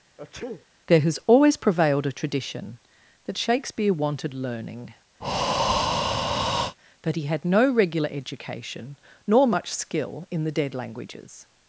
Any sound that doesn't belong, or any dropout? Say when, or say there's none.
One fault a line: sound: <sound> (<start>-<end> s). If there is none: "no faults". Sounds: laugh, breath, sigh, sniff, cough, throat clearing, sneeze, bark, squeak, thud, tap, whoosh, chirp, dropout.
sound: sneeze (0.2-0.7 s)
sound: breath (5.2-6.8 s)